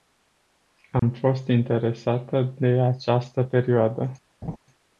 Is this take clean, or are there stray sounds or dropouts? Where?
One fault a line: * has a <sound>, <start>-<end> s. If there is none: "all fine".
* has a dropout, 1.0-1.0 s
* has a laugh, 4.4-4.6 s